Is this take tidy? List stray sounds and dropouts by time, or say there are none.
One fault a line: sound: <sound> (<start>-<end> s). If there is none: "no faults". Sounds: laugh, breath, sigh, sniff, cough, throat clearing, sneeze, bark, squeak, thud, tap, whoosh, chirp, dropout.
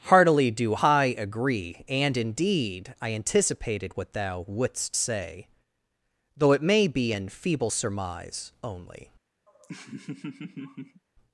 sound: laugh (9.5-11.0 s)